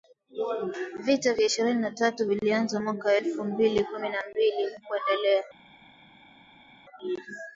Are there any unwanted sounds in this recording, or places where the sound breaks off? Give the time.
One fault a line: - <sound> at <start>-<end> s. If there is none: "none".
none